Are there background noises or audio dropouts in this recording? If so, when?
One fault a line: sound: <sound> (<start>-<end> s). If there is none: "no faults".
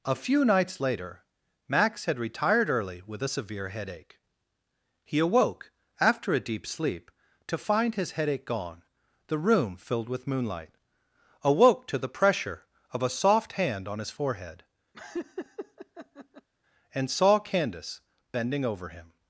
sound: laugh (14.9-16.5 s)